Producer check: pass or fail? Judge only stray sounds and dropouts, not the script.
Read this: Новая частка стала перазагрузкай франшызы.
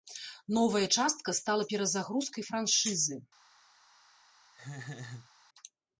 fail